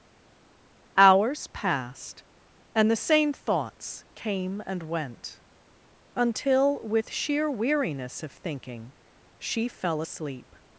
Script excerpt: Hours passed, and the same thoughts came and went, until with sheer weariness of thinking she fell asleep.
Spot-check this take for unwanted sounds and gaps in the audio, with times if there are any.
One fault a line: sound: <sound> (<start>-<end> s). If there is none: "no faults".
no faults